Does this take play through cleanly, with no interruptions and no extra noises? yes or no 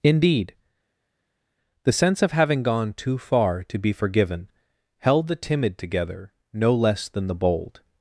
yes